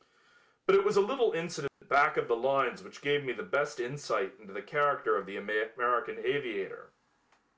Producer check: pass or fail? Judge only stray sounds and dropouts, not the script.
fail